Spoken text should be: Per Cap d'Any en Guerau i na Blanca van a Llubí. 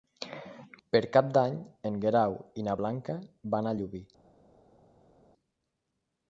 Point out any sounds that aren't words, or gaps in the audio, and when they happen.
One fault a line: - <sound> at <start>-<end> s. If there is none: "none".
none